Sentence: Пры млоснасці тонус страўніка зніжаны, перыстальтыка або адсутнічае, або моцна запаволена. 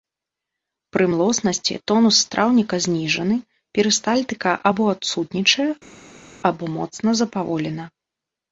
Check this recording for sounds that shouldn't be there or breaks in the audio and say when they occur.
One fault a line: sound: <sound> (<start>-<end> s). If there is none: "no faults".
no faults